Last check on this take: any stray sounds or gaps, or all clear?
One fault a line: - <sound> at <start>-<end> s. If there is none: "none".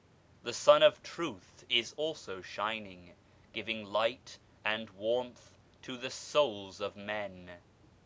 none